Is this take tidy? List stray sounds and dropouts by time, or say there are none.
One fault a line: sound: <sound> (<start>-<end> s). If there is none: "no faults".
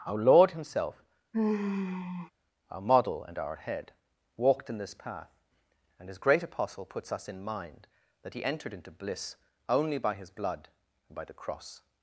sound: sigh (1.3-2.3 s)